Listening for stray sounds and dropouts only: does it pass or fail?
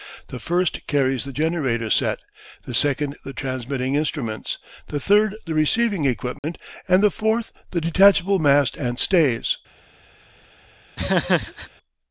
fail